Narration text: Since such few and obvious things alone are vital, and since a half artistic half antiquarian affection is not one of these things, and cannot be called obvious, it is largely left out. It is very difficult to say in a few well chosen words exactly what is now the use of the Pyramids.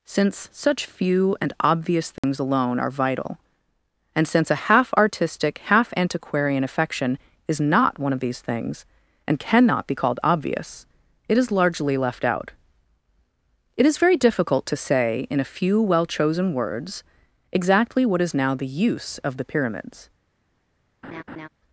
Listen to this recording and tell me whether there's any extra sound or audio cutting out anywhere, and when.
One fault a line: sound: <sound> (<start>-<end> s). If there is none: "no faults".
sound: dropout (2.2-2.2 s)
sound: laugh (21.0-21.5 s)